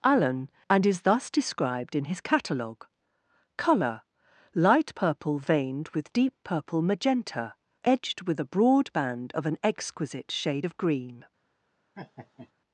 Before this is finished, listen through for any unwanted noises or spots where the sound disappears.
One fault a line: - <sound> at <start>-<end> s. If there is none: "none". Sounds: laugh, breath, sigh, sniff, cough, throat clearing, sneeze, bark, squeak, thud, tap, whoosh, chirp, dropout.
- laugh at 12.0-12.5 s